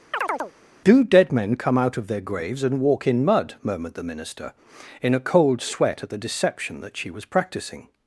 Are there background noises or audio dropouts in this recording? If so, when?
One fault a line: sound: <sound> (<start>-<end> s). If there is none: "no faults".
sound: chirp (0.1-0.5 s)